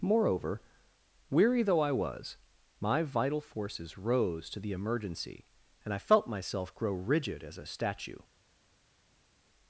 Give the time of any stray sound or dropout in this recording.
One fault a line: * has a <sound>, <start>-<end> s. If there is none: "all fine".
all fine